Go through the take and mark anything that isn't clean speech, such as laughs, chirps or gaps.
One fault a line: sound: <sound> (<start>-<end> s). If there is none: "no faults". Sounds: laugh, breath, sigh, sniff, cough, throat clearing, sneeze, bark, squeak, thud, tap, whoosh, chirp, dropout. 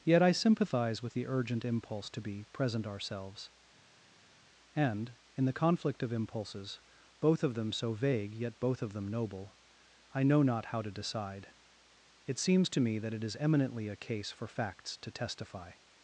no faults